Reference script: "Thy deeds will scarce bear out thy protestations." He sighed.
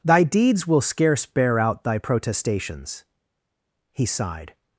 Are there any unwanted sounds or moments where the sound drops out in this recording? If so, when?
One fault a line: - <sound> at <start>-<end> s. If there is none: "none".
none